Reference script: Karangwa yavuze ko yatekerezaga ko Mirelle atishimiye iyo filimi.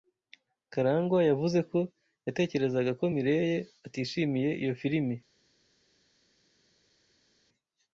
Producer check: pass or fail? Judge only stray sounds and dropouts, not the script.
pass